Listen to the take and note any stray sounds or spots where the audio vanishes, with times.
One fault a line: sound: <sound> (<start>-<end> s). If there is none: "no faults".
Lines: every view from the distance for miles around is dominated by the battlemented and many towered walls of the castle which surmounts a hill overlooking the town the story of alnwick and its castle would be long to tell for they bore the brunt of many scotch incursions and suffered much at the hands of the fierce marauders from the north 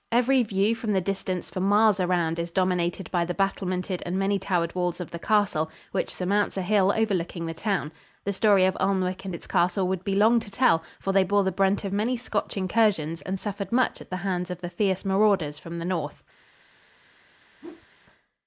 sound: whoosh (17.6-17.9 s)